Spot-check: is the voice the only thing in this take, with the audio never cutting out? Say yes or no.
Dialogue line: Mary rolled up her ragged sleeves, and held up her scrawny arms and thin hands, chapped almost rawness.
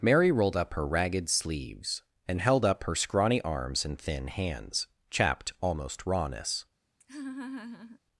no